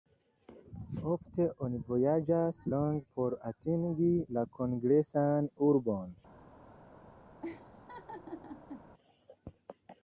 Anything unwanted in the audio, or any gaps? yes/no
yes